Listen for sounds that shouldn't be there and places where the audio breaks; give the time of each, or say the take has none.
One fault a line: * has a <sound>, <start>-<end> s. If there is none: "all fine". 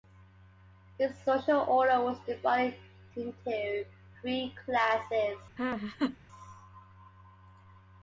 * has a laugh, 5.6-6.2 s